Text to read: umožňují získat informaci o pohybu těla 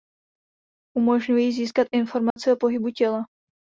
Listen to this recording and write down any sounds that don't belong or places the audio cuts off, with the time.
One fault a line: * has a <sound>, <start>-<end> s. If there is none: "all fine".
* has a dropout, 2.3-2.4 s